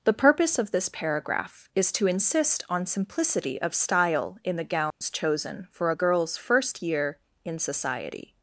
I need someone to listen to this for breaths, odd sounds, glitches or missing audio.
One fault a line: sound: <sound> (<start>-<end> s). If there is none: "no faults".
sound: dropout (4.9-5.0 s)